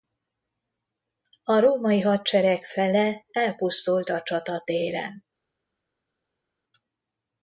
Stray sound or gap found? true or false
false